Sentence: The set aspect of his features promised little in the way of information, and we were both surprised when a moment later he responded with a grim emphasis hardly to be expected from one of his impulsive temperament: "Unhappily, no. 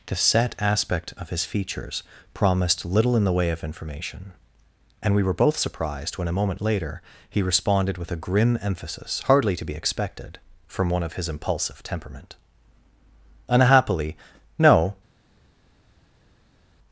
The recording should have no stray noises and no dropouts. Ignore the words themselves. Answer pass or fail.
pass